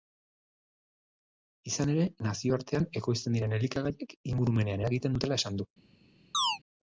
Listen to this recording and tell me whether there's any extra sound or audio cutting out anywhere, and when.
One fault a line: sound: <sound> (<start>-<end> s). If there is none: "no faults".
sound: chirp (6.3-6.6 s)